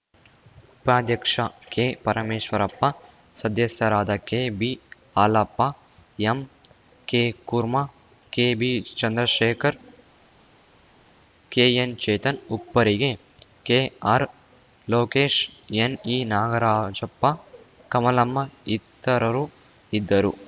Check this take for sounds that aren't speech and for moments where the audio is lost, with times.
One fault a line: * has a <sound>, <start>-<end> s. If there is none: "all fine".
all fine